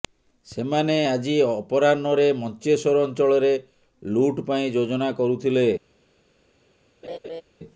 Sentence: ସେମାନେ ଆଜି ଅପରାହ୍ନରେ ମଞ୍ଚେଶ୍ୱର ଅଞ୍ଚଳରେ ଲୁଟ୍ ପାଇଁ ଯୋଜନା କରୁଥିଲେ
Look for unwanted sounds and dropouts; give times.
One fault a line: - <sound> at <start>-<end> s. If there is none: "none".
- laugh at 7.0-7.4 s